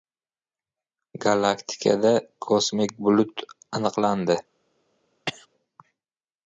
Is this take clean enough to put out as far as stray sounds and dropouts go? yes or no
no